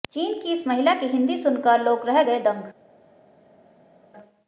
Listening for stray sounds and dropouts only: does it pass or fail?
pass